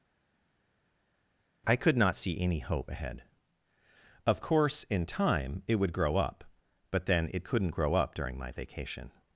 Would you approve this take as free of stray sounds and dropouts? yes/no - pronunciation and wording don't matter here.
yes